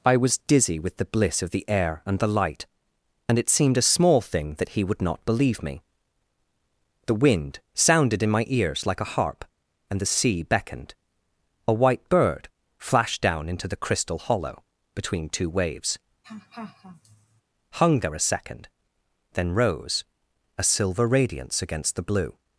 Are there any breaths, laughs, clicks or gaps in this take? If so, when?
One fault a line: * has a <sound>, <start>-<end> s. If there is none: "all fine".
* has a laugh, 16.2-17.4 s